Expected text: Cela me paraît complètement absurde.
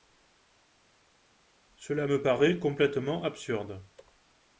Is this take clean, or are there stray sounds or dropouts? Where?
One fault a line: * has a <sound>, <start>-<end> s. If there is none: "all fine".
all fine